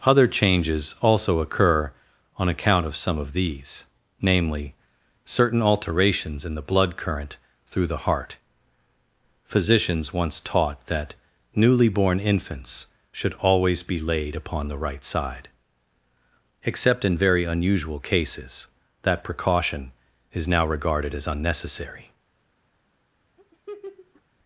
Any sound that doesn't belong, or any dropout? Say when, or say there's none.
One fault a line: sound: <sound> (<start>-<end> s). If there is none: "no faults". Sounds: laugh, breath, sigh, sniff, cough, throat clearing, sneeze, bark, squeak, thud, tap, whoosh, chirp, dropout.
sound: laugh (23.4-24.2 s)